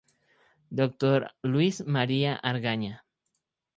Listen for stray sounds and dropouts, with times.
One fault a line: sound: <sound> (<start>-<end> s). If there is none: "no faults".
no faults